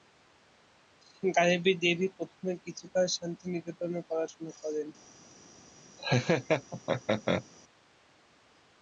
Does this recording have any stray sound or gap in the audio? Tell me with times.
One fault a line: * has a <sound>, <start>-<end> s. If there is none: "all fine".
* has a laugh, 6.0-7.5 s